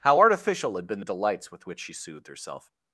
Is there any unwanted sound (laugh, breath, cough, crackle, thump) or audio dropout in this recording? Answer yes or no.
no